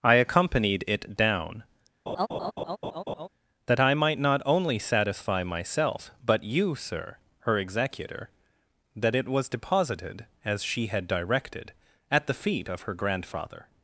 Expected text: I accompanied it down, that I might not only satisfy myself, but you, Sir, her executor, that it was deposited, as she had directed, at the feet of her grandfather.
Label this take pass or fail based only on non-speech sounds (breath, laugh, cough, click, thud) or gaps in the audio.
fail